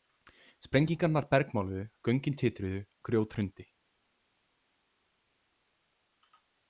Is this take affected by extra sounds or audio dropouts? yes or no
no